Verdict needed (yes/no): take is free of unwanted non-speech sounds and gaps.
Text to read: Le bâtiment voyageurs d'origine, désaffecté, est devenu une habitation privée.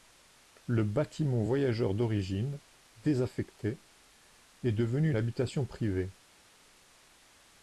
yes